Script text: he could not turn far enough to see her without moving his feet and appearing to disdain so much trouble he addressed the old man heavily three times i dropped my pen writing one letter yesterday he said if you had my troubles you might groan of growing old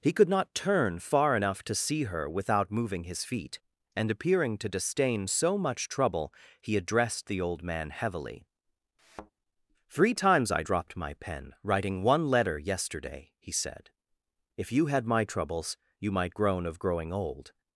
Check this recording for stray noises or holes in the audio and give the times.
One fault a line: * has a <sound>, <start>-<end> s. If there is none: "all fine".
* has a thud, 9.0-9.3 s